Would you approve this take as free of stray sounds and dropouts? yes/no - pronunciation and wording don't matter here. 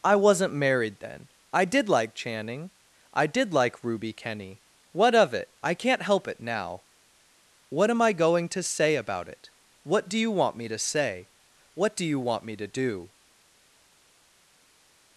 yes